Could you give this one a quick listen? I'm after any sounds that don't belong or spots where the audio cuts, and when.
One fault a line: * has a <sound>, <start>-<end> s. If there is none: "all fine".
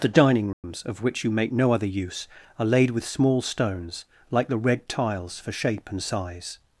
* has a dropout, 0.5-0.6 s